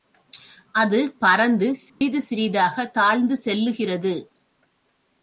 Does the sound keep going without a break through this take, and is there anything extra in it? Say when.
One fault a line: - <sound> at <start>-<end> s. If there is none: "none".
- dropout at 1.9-2.0 s